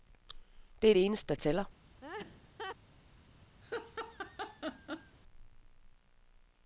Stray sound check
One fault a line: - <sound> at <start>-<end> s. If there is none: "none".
- laugh at 2.0-2.8 s
- laugh at 3.6-5.2 s